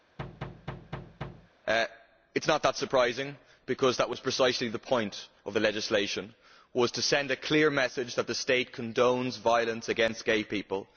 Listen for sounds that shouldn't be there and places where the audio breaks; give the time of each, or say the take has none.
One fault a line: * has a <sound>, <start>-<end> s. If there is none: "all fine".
* has a thud, 0.2-1.5 s